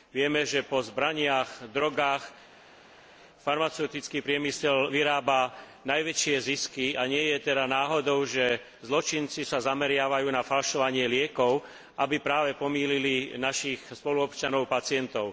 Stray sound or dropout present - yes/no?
no